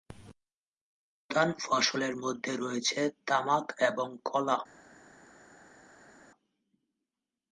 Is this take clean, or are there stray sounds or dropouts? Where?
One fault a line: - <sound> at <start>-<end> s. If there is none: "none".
none